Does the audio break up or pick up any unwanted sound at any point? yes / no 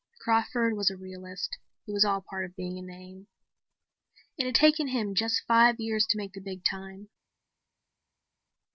no